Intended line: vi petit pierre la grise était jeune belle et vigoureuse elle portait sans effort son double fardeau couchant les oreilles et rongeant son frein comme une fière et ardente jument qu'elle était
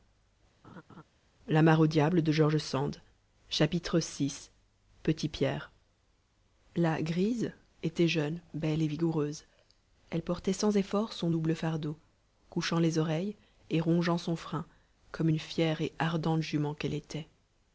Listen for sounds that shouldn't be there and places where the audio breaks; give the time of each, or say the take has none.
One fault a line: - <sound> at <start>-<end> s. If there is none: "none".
- laugh at 0.6-1.0 s